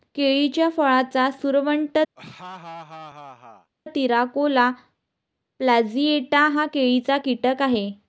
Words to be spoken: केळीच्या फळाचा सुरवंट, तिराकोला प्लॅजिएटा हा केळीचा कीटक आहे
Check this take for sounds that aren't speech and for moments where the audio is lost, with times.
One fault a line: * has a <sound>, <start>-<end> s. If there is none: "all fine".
* has a laugh, 2.2-3.7 s